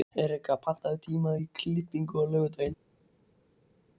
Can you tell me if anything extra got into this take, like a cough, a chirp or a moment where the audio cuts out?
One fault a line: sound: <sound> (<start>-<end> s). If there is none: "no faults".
no faults